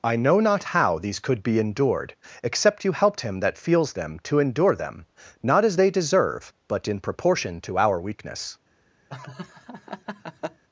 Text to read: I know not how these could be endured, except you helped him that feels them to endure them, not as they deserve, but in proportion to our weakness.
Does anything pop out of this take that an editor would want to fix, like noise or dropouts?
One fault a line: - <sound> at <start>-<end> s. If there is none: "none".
- laugh at 9.1-10.6 s